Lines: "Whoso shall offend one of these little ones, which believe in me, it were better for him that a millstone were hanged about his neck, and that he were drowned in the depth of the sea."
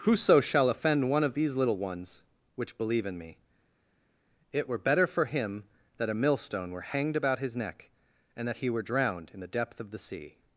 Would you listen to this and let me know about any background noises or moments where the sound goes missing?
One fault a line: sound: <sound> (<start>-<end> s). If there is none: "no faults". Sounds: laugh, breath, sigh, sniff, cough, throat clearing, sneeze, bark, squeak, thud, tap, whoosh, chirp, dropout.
no faults